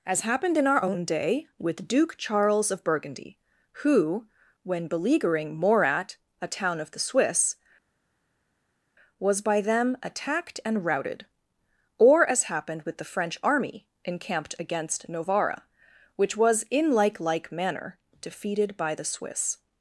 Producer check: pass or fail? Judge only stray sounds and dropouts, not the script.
pass